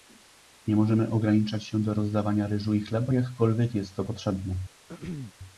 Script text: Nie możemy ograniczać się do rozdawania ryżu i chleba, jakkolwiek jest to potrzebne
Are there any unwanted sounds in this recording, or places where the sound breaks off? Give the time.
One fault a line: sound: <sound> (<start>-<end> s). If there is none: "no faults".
sound: throat clearing (4.9-5.3 s)